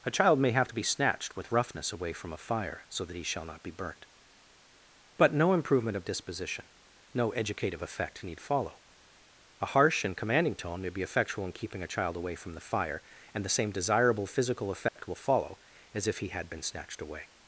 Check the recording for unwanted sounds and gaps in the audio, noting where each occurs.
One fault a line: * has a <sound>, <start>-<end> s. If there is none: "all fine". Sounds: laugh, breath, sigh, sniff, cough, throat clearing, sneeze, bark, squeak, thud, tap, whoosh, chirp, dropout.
* has a dropout, 14.9-15.0 s